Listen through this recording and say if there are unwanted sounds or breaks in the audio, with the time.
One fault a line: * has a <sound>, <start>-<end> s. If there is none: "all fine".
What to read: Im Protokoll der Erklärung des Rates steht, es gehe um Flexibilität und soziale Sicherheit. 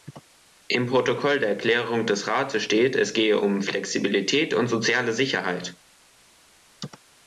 all fine